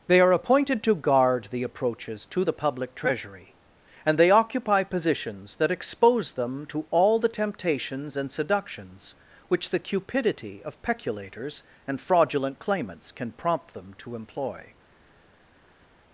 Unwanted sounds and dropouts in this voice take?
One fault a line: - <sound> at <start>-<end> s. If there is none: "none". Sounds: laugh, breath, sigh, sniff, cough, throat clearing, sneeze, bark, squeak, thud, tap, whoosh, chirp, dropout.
none